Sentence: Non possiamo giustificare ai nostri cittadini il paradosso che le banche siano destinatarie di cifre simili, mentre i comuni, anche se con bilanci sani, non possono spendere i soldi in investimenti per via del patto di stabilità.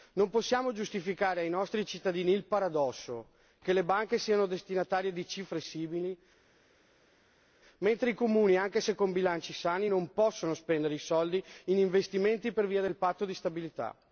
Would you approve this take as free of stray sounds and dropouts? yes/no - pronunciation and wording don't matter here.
yes